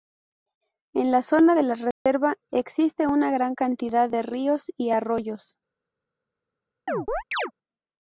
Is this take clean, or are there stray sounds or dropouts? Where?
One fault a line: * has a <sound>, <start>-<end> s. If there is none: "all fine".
* has a dropout, 1.9-2.1 s
* has a chirp, 6.9-7.5 s